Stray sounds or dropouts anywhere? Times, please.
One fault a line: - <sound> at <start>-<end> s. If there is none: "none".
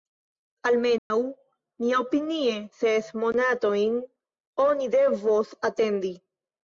- dropout at 1.0-1.1 s